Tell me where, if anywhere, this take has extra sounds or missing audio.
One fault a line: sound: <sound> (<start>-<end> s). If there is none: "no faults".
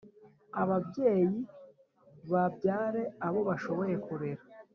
no faults